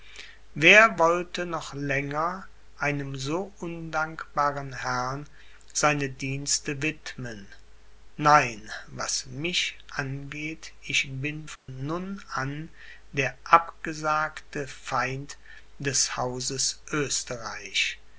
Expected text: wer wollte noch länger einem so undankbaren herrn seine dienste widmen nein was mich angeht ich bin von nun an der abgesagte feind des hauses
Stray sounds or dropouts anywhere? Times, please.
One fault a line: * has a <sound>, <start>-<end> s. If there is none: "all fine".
* has a dropout, 11.6-11.7 s